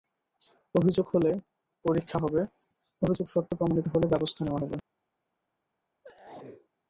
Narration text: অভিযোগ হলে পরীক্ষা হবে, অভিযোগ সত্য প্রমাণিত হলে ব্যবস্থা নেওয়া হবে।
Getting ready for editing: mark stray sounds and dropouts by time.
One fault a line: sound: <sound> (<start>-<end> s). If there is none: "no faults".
sound: sneeze (6.0-6.7 s)